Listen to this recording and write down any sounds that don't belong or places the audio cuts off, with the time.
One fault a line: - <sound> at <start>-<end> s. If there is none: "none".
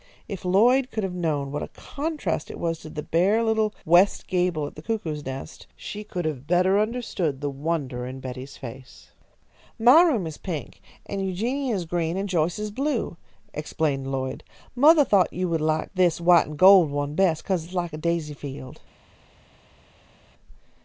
none